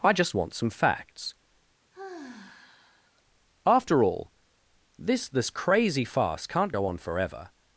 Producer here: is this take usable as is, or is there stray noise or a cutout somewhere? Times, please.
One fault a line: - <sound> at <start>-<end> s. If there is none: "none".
- sigh at 1.9-3.2 s